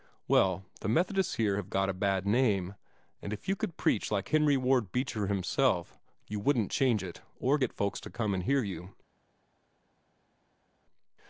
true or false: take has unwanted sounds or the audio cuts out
false